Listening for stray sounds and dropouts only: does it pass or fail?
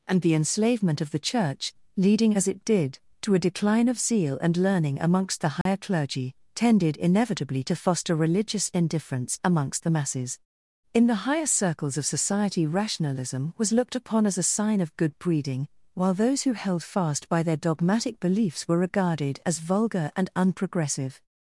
fail